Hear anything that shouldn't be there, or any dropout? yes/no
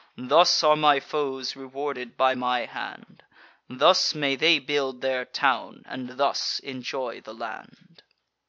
no